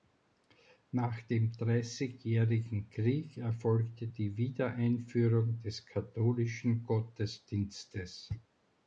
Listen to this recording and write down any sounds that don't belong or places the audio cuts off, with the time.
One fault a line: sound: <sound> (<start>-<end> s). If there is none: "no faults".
no faults